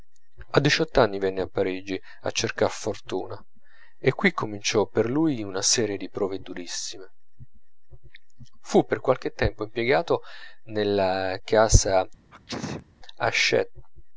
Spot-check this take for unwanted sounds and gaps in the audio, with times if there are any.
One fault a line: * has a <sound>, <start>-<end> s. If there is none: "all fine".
* has a sneeze, 12.3-12.9 s